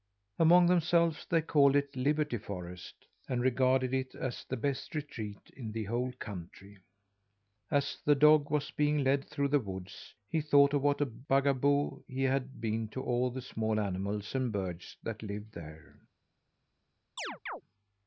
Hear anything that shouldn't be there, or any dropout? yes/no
yes